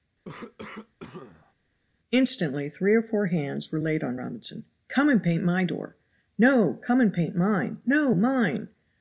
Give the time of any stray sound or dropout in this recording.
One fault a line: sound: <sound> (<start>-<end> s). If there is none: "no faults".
sound: cough (0.2-1.5 s)